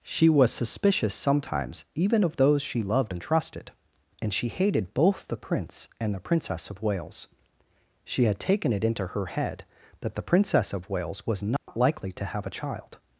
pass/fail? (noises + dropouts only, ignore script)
fail